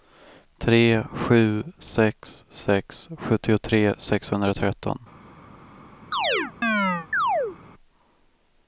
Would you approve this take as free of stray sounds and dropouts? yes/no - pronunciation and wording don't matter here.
no